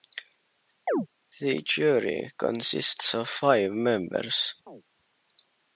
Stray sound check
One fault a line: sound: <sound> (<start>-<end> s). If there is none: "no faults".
sound: chirp (0.9-1.1 s)
sound: chirp (4.7-4.8 s)